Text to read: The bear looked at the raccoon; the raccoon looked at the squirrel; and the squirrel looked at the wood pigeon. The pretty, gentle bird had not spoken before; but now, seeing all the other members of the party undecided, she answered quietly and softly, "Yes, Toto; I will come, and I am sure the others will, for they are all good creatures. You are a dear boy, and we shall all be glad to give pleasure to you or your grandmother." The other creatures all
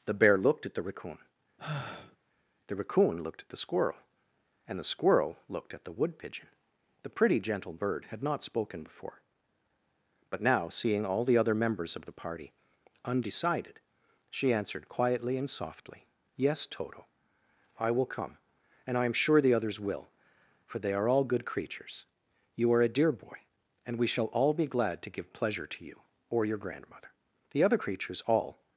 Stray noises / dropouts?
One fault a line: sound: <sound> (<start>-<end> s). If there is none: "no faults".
sound: sigh (1.6-2.2 s)